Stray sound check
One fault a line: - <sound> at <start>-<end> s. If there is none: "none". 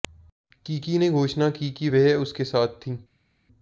none